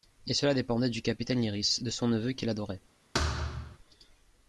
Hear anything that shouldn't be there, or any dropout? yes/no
yes